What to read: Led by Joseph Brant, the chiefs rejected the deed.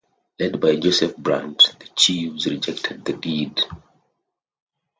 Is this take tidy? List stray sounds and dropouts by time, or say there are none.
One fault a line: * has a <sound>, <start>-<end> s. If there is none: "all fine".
all fine